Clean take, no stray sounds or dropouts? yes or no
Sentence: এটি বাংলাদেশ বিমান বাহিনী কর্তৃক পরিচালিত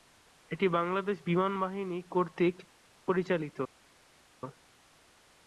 yes